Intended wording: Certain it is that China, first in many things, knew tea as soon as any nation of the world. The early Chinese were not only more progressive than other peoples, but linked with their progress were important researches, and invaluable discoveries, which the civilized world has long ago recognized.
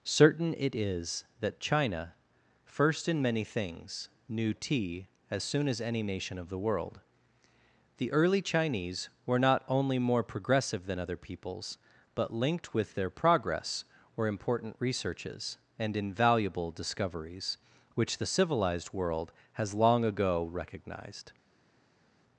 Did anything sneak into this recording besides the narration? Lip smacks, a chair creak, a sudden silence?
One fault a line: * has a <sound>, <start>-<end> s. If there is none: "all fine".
all fine